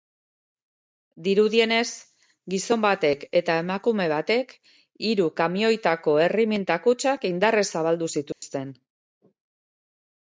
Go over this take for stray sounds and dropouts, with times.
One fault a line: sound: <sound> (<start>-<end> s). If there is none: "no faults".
sound: dropout (8.3-8.4 s)